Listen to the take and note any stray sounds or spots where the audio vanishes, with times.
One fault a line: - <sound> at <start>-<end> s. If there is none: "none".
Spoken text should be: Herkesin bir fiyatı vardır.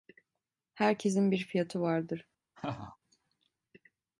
- laugh at 2.6-3.0 s